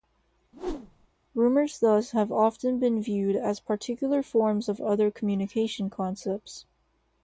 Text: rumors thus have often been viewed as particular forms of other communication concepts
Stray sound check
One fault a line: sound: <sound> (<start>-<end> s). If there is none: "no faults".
sound: whoosh (0.5-1.1 s)